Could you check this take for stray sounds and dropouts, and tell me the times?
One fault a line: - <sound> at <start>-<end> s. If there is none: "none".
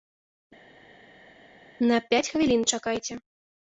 none